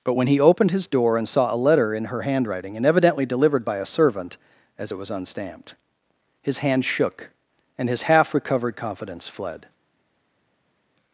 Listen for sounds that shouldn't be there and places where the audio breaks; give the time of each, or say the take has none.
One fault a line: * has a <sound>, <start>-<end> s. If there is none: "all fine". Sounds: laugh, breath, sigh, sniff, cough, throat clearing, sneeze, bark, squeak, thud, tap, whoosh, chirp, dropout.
all fine